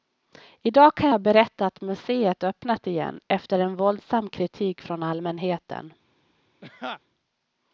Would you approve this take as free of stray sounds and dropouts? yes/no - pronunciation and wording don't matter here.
no